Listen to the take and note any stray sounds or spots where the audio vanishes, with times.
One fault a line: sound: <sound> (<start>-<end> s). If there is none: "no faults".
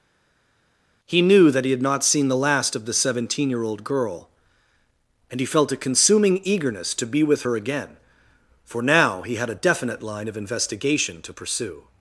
no faults